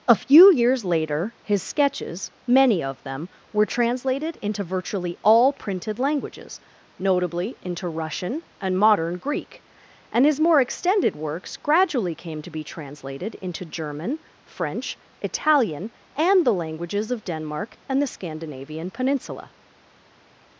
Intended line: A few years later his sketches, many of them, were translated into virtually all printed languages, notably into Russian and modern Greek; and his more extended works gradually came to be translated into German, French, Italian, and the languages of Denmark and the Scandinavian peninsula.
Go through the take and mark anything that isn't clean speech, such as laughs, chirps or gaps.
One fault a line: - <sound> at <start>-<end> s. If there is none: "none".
none